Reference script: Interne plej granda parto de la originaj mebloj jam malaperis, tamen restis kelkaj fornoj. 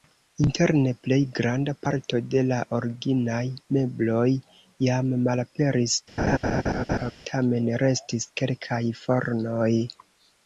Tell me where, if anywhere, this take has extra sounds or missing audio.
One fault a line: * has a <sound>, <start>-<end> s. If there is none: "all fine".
* has a laugh, 6.2-7.1 s